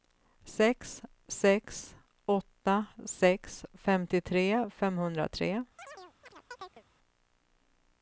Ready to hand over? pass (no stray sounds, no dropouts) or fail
fail